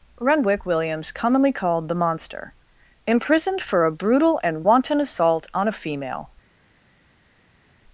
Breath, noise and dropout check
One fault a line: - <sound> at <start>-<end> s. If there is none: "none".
none